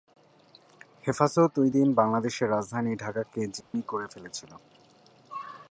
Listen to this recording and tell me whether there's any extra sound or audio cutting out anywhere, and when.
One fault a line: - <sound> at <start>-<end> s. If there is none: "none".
- dropout at 3.6-3.7 s